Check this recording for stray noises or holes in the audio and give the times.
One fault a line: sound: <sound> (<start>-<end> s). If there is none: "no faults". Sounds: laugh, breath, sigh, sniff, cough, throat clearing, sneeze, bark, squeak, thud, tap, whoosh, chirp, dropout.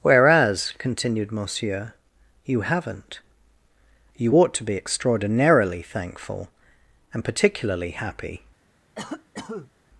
sound: cough (8.9-9.7 s)